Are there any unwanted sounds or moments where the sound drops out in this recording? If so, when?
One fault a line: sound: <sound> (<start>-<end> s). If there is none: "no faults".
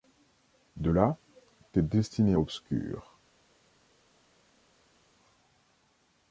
no faults